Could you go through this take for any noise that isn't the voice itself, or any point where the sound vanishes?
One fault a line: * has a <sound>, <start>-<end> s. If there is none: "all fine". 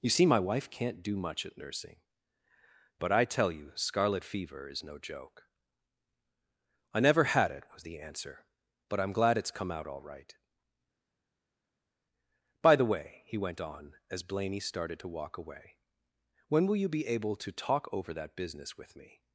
all fine